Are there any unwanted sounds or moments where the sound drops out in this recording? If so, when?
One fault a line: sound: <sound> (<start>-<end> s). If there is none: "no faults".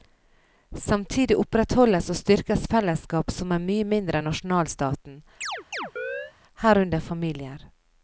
sound: chirp (5.4-6.3 s)